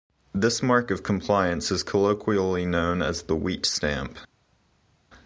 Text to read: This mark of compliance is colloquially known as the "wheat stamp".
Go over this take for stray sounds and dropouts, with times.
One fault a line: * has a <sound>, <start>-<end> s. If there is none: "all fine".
all fine